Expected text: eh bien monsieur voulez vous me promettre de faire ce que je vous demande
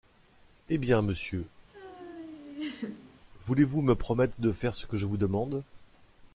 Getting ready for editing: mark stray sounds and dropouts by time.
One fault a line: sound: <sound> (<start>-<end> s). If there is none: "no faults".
sound: laugh (1.7-3.2 s)